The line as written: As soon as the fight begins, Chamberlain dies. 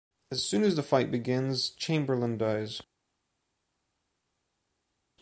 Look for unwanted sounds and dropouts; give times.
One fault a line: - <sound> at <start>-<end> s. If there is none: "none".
none